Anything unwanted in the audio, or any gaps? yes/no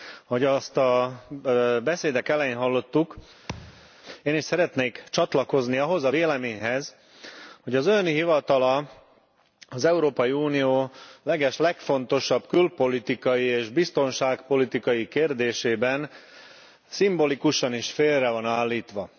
yes